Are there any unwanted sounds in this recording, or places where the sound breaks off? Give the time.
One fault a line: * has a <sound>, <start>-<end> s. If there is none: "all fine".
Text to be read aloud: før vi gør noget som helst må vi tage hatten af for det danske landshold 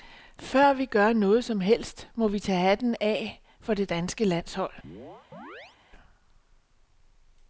* has a chirp, 4.8-5.8 s